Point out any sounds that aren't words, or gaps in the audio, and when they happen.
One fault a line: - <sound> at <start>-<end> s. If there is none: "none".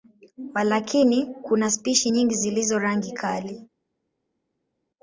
none